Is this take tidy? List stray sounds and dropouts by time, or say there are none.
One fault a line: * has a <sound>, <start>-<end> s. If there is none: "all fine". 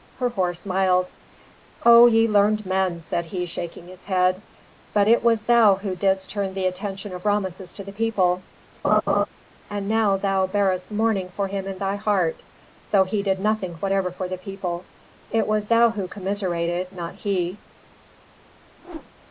* has a laugh, 8.8-9.3 s
* has a whoosh, 18.8-19.1 s